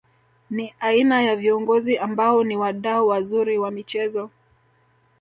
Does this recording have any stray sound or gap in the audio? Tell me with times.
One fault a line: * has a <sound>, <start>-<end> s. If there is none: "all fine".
all fine